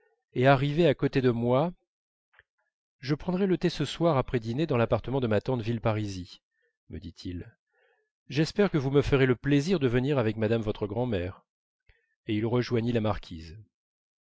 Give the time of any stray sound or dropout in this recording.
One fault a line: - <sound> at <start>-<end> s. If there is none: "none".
none